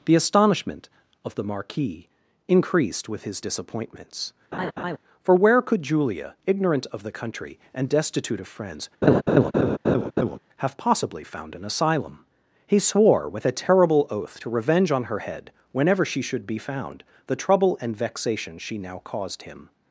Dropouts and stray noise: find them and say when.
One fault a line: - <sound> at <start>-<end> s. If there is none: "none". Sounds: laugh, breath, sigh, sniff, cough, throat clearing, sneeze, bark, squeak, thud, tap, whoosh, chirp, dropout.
- laugh at 4.5-5.0 s
- laugh at 9.0-10.4 s